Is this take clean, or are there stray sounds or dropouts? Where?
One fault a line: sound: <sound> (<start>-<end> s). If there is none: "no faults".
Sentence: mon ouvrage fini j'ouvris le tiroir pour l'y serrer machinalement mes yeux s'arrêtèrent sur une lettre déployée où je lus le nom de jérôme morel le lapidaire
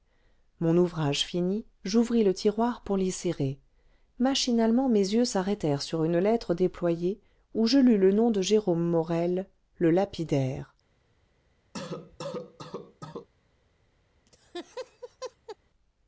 sound: cough (11.7-13.3 s)
sound: laugh (14.3-15.6 s)